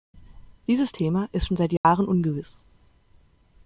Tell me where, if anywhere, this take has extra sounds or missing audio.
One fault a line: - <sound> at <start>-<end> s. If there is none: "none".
- dropout at 1.8-1.8 s